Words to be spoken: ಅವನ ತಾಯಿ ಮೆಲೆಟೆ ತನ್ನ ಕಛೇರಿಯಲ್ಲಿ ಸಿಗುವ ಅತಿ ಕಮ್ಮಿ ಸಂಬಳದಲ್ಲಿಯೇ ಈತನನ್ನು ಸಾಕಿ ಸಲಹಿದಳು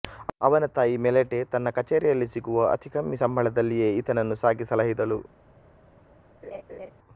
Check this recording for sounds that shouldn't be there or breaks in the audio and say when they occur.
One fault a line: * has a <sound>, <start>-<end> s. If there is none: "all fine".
* has a laugh, 6.4-6.9 s